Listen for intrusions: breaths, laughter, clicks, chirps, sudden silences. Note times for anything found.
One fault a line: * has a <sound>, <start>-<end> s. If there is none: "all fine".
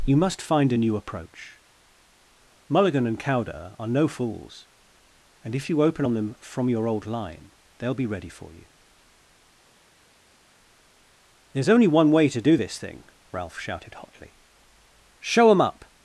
all fine